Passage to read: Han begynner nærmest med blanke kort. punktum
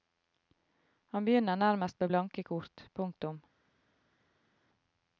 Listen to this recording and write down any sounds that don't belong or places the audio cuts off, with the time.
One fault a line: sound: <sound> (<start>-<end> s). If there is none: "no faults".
no faults